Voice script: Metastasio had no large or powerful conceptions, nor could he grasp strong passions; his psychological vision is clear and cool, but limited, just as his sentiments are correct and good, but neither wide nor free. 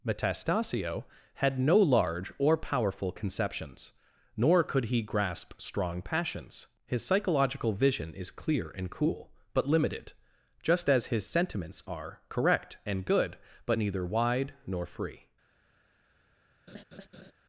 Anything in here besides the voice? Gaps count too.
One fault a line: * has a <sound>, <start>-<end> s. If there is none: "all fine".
* has a laugh, 16.7-17.3 s